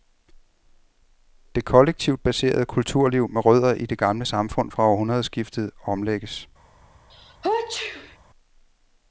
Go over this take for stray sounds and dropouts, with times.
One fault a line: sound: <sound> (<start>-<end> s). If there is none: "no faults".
sound: sneeze (7.1-8.2 s)